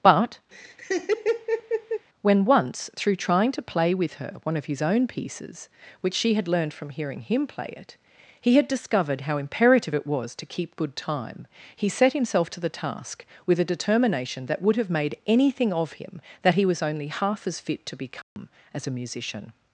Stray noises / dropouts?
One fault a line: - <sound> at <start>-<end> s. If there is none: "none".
- laugh at 0.5-2.1 s
- dropout at 18.2-18.4 s